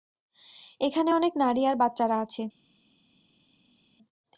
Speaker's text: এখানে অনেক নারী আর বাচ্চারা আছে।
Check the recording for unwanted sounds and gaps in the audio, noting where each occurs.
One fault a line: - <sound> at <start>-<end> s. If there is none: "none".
none